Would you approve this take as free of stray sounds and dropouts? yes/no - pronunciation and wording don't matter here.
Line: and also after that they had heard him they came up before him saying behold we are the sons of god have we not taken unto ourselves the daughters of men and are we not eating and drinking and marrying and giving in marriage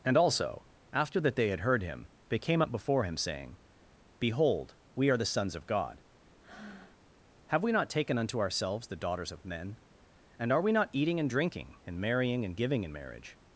no